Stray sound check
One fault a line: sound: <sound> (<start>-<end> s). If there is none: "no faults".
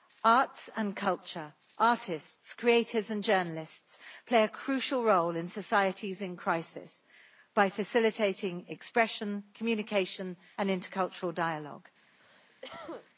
sound: cough (12.2-13.1 s)